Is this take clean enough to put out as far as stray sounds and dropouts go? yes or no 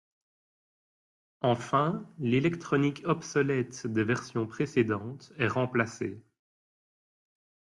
yes